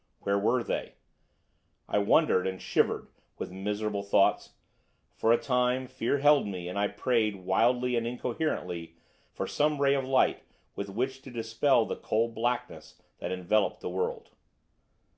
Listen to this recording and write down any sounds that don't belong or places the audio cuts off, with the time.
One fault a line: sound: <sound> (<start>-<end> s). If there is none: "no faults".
no faults